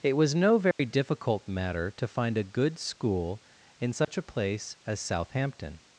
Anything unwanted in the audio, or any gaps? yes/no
yes